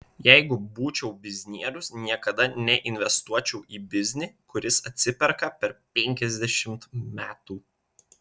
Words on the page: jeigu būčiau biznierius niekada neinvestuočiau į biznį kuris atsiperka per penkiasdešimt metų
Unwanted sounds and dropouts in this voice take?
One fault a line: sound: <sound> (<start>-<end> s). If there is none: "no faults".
no faults